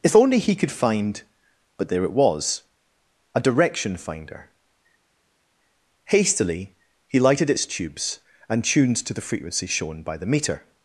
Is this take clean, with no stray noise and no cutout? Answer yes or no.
yes